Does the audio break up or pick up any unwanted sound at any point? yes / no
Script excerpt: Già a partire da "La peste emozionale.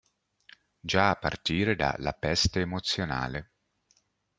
no